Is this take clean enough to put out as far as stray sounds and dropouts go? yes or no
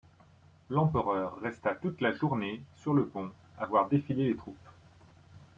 yes